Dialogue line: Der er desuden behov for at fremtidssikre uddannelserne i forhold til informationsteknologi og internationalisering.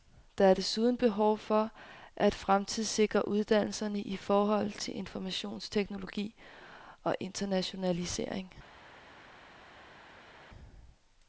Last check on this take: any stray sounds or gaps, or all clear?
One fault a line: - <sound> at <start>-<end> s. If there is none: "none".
none